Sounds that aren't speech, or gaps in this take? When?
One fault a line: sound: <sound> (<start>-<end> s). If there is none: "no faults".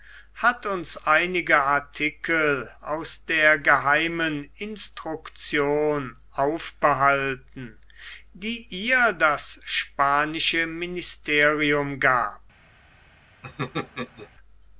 sound: laugh (13.4-14.3 s)